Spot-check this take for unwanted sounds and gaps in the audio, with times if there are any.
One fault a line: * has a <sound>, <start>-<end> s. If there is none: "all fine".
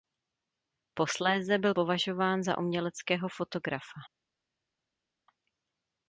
all fine